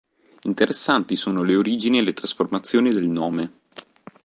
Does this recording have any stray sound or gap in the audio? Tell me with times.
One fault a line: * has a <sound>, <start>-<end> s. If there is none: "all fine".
all fine